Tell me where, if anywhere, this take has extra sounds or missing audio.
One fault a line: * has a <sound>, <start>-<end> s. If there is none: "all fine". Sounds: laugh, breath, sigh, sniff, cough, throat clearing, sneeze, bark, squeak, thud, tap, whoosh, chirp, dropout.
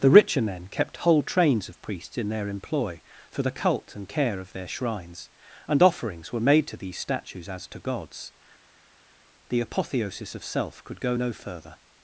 all fine